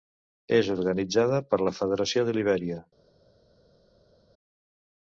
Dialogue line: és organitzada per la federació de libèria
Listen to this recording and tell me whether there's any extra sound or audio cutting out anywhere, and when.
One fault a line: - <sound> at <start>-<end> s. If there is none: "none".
none